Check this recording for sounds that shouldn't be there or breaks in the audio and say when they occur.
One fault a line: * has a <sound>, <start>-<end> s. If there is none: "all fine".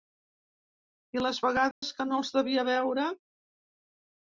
* has a dropout, 1.7-1.8 s